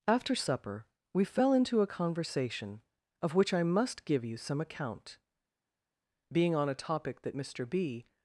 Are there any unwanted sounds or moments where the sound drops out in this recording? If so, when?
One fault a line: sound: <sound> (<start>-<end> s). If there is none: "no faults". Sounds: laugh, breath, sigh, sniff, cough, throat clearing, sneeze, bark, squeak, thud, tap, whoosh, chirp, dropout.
no faults